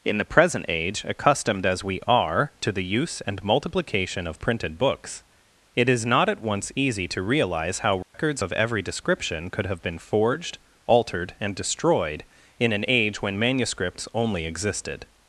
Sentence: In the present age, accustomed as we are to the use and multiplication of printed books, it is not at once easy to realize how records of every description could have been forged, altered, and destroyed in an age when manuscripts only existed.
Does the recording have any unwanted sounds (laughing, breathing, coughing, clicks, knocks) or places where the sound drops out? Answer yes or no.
yes